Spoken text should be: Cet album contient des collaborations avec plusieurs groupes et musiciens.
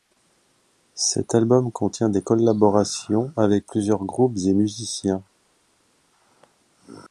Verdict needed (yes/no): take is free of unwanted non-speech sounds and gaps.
yes